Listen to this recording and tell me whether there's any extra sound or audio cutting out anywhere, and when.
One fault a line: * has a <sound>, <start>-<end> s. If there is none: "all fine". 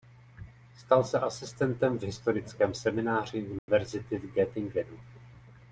* has a dropout, 3.6-3.7 s